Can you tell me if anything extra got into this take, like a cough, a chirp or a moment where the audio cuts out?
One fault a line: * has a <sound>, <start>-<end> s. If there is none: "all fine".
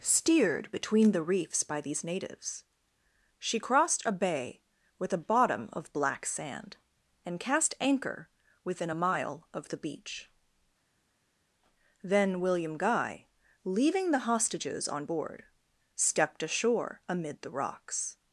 all fine